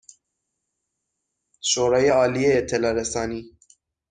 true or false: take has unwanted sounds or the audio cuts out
false